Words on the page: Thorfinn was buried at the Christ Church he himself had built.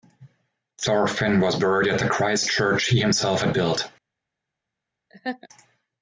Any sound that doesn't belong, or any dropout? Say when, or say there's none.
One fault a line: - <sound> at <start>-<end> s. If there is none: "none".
- laugh at 5.1-5.5 s